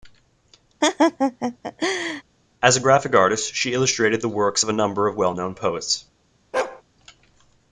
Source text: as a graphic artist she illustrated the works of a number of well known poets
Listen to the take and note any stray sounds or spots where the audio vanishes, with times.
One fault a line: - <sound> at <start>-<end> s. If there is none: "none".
- laugh at 0.8-2.2 s
- bark at 6.5-6.8 s